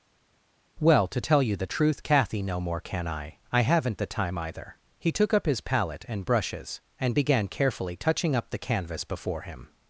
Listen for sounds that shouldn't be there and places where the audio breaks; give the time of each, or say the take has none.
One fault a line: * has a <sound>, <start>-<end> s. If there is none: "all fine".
all fine